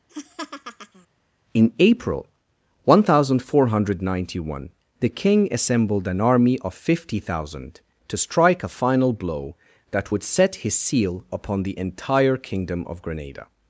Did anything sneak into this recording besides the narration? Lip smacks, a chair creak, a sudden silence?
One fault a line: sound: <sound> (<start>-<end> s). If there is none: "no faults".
sound: laugh (0.1-1.1 s)